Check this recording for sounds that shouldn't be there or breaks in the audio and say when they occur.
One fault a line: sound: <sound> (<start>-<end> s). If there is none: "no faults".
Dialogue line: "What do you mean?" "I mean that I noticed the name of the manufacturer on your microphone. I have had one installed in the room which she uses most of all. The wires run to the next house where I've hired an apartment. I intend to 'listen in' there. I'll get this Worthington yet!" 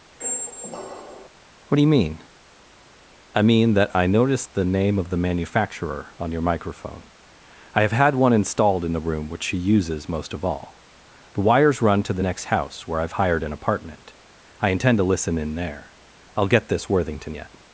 sound: squeak (0.2-1.3 s)